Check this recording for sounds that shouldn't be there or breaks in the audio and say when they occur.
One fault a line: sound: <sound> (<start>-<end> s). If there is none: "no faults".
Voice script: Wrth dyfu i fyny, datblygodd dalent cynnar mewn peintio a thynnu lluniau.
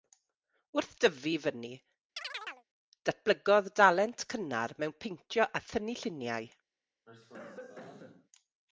sound: chirp (2.2-2.7 s)
sound: cough (7.1-8.3 s)